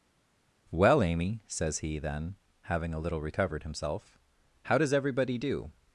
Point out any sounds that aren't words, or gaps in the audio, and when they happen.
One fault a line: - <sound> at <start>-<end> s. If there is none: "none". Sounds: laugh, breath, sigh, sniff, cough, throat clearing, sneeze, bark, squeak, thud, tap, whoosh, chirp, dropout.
none